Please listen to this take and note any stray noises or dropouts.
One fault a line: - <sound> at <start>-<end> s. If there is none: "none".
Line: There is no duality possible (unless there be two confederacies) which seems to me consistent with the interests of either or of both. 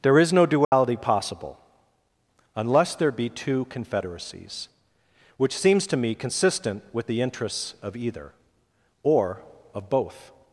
- dropout at 0.6-0.7 s